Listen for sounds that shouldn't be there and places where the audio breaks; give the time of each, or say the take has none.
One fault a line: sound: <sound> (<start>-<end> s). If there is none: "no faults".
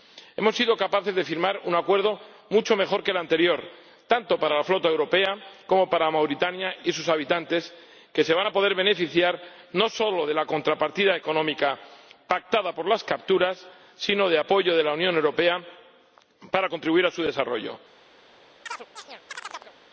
sound: chirp (18.7-19.7 s)